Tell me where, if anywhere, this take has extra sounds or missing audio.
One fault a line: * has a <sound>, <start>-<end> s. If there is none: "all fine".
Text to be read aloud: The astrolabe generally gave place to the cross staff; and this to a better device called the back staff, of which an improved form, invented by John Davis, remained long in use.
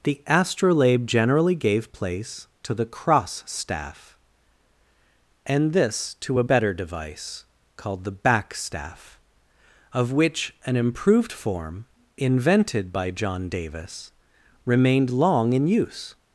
all fine